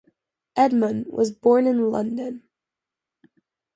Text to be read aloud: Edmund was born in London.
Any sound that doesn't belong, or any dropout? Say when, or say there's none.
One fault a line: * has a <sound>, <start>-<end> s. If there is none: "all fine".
all fine